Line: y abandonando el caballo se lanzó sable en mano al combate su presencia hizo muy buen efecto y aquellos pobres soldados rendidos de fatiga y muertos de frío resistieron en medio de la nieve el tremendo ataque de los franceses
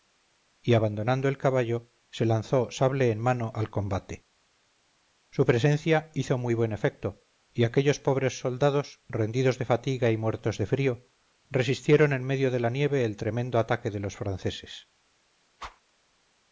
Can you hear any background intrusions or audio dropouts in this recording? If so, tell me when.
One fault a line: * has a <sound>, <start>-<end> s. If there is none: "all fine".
* has a whoosh, 15.6-15.8 s